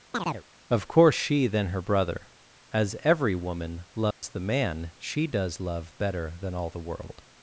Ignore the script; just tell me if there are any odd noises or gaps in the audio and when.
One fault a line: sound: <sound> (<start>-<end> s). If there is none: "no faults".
sound: chirp (0.1-0.4 s)
sound: dropout (4.1-4.2 s)